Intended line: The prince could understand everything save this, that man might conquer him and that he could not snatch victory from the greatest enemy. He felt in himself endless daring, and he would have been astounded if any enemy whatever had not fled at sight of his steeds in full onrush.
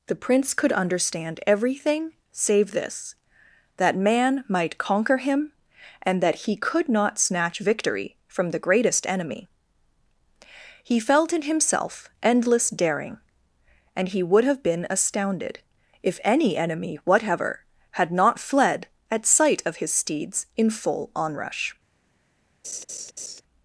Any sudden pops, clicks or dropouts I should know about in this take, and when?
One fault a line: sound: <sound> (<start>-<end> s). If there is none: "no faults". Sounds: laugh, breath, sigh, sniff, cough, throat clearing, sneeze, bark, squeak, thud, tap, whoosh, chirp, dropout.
sound: laugh (22.6-23.4 s)